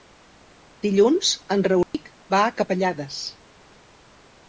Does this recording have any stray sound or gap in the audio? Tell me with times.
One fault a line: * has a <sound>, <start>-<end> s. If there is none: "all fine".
* has a dropout, 1.8-1.9 s